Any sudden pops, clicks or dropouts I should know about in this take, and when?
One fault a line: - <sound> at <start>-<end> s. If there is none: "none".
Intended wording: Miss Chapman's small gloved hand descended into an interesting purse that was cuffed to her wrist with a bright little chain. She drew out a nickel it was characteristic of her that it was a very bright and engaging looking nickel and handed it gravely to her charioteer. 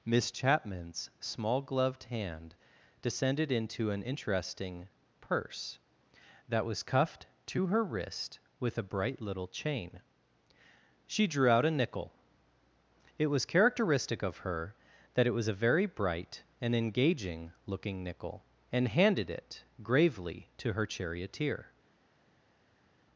none